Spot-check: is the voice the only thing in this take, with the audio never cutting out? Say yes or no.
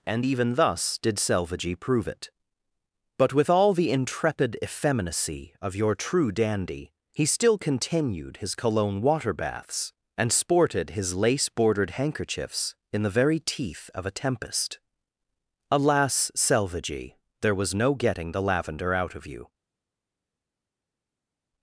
yes